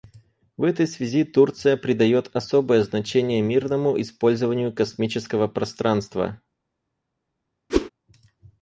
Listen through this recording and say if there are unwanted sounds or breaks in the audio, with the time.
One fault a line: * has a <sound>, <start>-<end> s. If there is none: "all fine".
* has a whoosh, 7.7-7.9 s